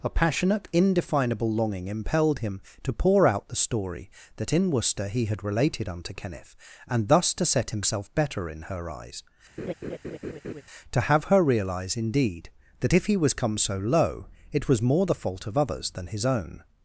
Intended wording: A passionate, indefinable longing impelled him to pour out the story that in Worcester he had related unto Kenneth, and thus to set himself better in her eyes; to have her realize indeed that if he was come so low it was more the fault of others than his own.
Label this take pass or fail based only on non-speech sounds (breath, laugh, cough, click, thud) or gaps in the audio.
fail